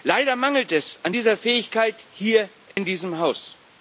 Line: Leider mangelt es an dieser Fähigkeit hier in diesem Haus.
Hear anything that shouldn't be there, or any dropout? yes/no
yes